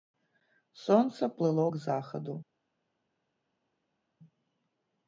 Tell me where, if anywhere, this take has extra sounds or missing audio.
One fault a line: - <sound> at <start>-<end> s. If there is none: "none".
none